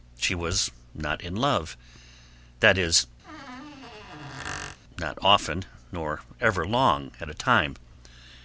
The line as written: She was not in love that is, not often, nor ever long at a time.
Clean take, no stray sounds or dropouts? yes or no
no